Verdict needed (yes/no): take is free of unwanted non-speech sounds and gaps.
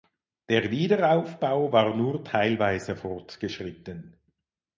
yes